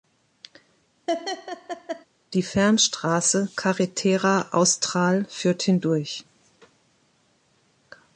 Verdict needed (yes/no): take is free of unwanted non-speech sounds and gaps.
no